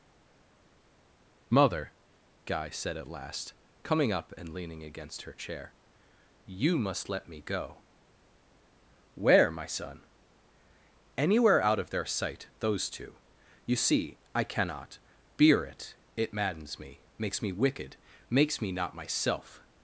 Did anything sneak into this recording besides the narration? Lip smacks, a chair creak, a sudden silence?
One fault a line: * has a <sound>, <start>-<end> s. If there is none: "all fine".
all fine